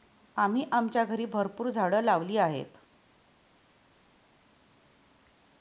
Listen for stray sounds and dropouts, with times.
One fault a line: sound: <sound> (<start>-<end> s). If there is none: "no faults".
no faults